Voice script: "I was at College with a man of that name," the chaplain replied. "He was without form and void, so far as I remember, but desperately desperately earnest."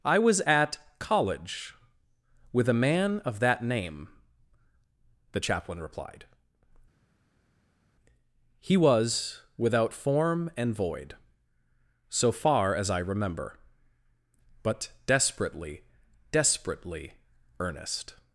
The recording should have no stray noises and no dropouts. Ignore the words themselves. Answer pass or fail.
pass